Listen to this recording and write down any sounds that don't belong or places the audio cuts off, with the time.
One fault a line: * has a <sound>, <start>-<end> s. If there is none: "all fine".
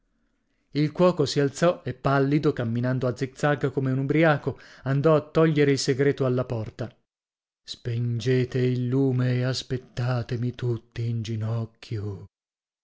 all fine